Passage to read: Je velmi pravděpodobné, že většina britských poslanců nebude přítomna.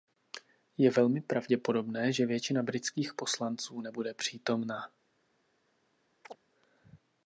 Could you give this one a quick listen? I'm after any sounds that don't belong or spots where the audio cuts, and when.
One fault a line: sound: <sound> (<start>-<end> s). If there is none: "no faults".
sound: chirp (6.2-6.4 s)